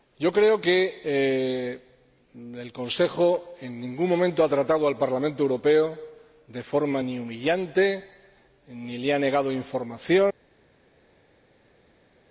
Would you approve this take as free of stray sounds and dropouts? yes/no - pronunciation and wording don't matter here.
yes